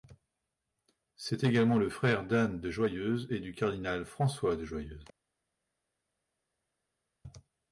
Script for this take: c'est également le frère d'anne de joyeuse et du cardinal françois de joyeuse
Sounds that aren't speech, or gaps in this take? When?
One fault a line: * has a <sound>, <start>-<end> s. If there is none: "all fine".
all fine